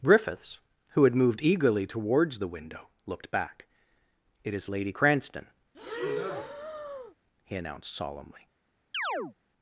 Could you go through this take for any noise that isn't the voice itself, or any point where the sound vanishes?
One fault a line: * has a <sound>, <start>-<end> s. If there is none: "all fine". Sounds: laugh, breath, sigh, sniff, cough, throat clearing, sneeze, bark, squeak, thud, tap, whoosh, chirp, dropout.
* has a breath, 5.7-7.1 s
* has a chirp, 8.9-9.3 s